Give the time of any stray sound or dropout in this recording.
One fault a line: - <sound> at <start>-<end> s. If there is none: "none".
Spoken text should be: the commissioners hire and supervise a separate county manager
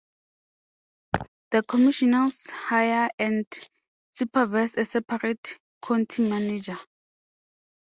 - laugh at 1.1-1.3 s